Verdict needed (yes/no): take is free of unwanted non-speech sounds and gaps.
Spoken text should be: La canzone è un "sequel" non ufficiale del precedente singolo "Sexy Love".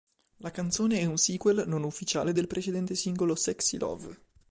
yes